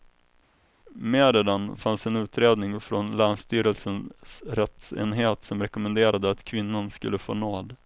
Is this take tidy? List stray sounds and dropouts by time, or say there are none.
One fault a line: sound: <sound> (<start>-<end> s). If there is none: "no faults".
no faults